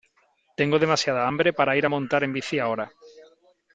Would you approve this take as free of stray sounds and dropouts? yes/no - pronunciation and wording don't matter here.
yes